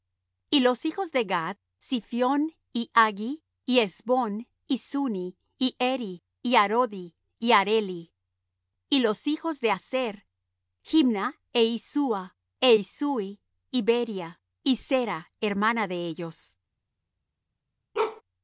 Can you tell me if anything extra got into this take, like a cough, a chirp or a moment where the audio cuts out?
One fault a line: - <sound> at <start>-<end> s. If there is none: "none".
- bark at 17.9-18.2 s